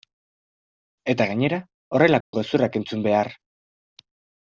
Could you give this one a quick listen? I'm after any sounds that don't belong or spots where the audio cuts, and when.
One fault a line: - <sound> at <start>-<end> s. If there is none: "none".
- dropout at 2.2-2.3 s